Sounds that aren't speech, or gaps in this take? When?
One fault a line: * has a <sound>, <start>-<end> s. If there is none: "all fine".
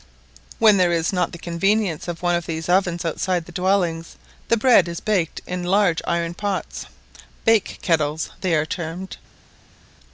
all fine